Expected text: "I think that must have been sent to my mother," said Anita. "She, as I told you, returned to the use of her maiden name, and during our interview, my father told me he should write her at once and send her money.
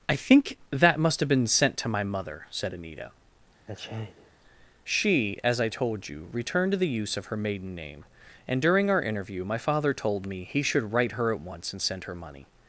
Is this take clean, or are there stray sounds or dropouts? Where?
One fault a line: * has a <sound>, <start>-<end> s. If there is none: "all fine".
* has a sneeze, 3.7-4.3 s